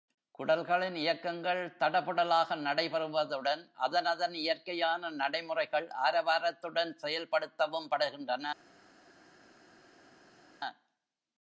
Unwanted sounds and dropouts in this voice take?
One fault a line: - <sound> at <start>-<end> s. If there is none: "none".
none